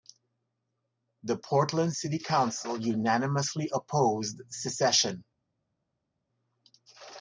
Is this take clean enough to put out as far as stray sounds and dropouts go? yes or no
yes